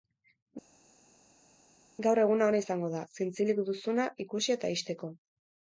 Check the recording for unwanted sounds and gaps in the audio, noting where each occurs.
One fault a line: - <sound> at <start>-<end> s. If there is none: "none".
none